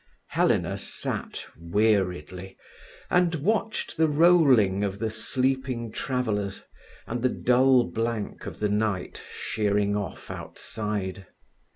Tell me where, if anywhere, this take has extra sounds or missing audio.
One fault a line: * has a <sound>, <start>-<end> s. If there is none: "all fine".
all fine